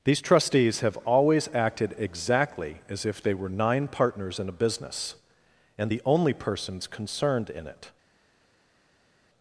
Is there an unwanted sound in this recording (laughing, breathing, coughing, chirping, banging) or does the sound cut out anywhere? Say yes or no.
no